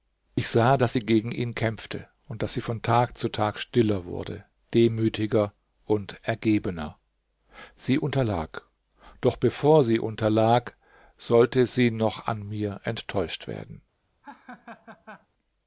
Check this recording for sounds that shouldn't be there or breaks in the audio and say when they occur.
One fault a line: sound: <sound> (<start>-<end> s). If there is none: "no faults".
sound: laugh (14.2-15.3 s)